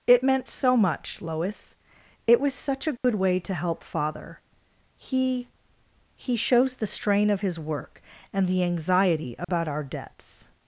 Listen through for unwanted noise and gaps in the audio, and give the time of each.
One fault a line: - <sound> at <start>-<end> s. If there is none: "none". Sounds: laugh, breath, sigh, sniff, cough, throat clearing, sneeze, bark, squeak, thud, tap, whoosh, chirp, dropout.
- dropout at 3.0-3.0 s
- dropout at 9.4-9.5 s